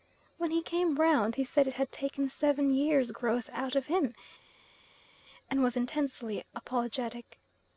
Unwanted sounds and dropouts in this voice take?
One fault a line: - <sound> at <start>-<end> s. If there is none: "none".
none